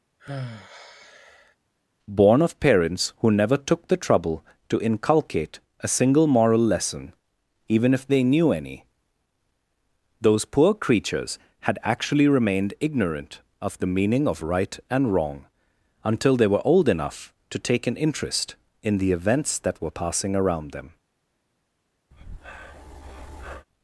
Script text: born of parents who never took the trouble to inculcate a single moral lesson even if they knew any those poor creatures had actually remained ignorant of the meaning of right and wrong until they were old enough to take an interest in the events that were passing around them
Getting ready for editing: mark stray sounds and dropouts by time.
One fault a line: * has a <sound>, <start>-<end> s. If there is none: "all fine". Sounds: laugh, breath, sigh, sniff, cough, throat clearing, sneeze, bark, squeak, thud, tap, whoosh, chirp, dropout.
* has a sigh, 0.2-1.6 s
* has a breath, 22.1-23.7 s